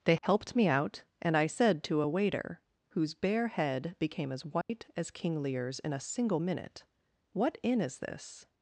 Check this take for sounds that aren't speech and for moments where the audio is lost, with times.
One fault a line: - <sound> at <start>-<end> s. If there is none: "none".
- dropout at 4.6-4.7 s